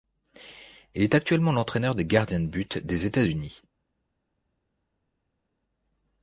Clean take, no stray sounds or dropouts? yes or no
yes